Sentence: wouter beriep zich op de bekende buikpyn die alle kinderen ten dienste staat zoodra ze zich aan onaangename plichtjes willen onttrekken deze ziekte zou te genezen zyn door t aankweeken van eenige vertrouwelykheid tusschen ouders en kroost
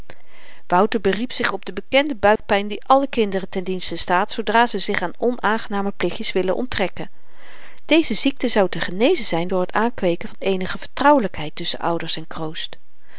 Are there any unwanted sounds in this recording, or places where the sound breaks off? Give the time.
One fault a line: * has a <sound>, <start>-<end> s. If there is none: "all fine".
* has a dropout, 2.4-2.4 s